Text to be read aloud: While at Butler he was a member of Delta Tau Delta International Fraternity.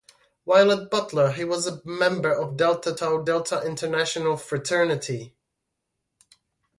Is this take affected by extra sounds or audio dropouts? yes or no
no